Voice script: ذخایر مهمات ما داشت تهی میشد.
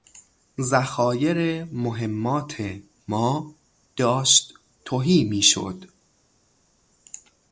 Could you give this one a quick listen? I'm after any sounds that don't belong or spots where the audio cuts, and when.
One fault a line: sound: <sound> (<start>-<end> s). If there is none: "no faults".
no faults